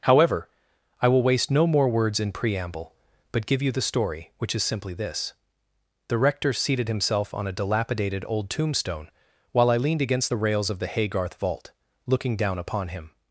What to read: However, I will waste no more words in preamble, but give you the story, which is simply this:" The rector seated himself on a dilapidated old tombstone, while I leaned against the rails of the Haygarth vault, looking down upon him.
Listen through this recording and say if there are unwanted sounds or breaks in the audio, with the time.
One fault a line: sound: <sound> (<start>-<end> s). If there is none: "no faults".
no faults